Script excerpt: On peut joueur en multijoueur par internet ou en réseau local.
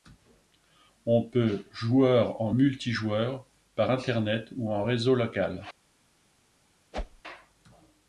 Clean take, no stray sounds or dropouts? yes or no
no